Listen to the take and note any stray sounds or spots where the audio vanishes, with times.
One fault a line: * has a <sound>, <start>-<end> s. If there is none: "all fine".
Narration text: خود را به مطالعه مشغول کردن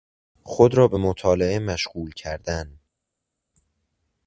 all fine